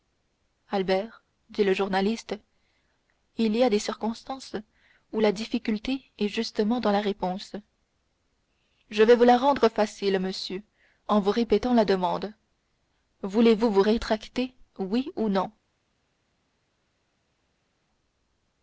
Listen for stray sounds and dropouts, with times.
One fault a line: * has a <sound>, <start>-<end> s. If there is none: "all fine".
all fine